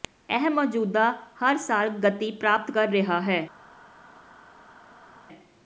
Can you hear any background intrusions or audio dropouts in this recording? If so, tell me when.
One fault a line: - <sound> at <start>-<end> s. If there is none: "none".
none